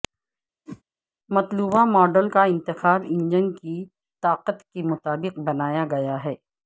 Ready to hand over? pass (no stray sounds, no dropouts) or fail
fail